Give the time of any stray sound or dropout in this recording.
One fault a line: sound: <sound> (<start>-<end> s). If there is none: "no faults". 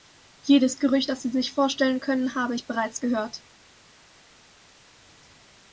no faults